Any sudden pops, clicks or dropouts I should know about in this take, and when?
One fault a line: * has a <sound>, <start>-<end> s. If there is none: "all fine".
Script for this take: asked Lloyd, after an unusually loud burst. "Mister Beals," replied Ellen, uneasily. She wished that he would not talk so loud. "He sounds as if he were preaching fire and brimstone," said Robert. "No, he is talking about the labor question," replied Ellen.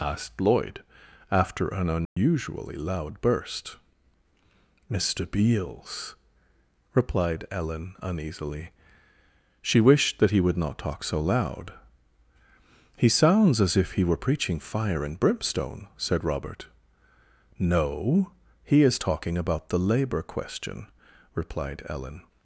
* has a dropout, 2.1-2.2 s